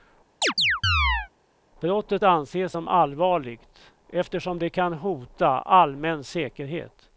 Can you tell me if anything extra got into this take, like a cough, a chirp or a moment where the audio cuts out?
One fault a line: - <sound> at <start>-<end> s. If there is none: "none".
- chirp at 0.4-1.3 s